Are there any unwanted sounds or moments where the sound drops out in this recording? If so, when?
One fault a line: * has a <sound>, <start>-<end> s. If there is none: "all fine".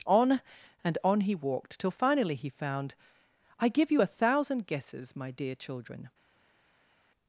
all fine